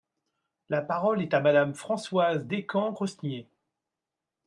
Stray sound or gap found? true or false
false